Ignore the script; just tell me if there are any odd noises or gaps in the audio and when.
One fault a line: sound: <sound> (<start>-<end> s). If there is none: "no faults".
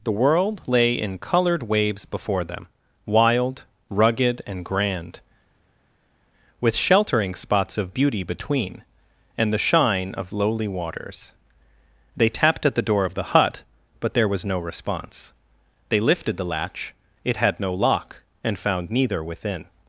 no faults